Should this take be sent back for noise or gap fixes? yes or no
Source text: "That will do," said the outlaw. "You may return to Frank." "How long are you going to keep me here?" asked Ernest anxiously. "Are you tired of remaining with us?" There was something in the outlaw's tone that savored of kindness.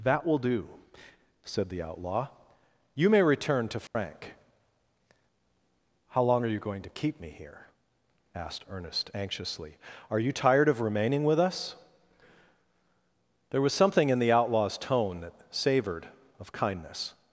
yes